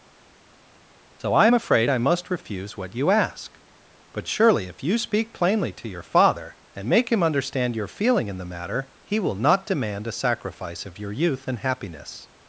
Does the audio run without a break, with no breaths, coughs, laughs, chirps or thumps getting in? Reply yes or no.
yes